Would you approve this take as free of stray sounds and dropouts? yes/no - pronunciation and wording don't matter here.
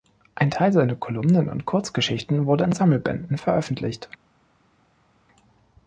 yes